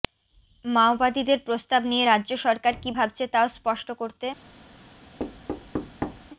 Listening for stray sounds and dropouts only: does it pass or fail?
fail